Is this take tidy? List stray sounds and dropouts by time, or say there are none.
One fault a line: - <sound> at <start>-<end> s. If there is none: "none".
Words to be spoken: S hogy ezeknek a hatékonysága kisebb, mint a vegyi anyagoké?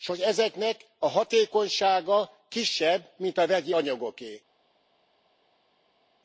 none